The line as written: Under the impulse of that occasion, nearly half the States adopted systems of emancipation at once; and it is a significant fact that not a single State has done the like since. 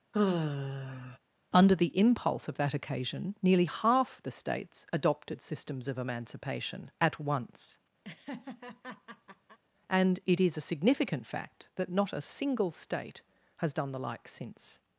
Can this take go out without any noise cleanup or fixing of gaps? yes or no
no